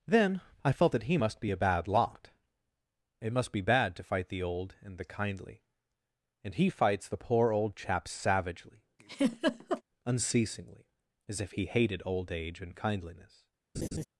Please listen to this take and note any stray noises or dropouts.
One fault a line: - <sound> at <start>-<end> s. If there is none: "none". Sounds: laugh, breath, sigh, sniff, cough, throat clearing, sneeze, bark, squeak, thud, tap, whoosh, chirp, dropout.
- laugh at 9.0-9.8 s
- laugh at 13.7-14.0 s